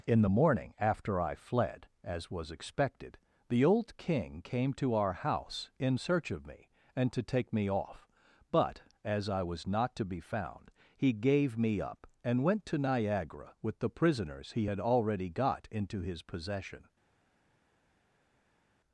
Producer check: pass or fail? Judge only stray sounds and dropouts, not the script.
pass